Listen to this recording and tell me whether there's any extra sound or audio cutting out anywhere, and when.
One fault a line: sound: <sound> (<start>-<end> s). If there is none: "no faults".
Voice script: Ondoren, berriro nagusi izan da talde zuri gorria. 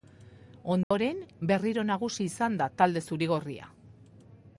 sound: dropout (0.8-0.9 s)